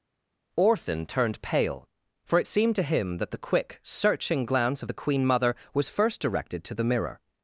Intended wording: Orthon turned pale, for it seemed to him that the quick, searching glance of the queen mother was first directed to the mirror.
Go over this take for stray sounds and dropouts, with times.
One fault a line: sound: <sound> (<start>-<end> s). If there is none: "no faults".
no faults